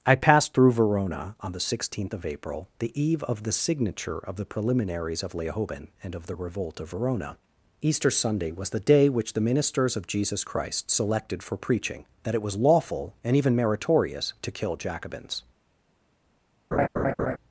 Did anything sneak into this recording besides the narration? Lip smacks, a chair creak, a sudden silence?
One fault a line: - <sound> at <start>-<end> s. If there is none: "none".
- laugh at 16.7-17.4 s